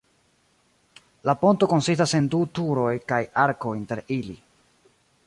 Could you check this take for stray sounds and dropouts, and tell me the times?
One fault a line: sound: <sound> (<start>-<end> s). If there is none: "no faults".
no faults